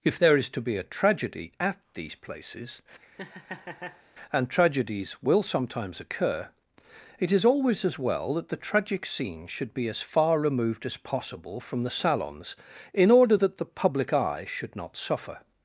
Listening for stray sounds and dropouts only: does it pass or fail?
fail